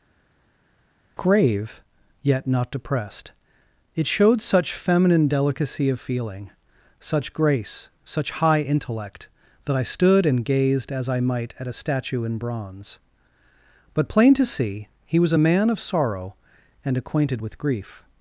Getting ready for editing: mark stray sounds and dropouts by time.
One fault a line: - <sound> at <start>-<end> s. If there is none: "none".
none